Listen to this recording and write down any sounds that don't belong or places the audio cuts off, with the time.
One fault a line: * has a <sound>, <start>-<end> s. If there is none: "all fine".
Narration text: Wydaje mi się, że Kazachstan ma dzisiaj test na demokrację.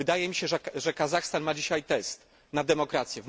all fine